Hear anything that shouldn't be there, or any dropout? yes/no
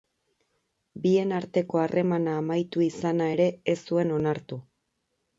no